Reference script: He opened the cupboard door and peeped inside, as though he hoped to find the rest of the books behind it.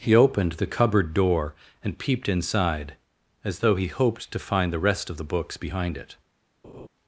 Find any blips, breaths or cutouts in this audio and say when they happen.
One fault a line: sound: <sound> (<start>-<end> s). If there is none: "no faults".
sound: laugh (6.6-6.9 s)